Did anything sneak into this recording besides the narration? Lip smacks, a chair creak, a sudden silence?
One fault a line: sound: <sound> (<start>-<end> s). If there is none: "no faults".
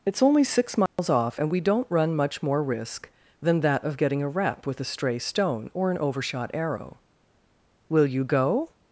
sound: dropout (0.9-1.0 s)